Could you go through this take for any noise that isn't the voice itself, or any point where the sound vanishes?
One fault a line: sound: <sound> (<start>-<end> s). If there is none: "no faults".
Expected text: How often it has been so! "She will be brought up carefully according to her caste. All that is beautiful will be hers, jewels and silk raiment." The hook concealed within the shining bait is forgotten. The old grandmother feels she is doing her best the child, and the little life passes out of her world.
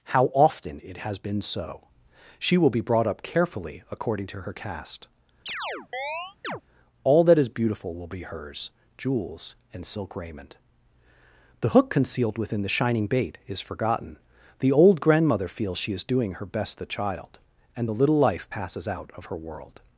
sound: chirp (5.5-6.6 s)